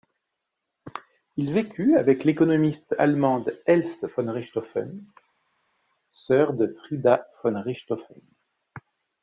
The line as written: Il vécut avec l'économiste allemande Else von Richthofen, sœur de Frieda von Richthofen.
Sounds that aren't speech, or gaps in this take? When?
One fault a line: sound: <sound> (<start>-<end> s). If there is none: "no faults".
no faults